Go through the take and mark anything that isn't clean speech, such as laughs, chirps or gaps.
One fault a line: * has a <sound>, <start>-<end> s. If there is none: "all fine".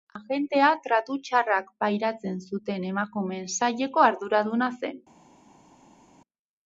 all fine